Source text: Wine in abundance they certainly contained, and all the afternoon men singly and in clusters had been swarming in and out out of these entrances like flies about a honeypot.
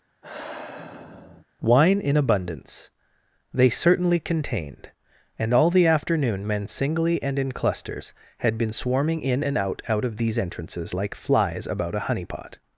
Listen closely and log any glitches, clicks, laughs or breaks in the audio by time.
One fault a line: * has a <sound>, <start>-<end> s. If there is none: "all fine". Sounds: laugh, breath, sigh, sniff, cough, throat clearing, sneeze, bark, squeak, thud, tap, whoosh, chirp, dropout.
* has a sigh, 0.2-1.5 s